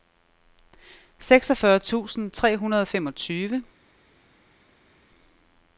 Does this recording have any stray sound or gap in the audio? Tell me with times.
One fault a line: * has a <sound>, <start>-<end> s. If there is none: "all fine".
all fine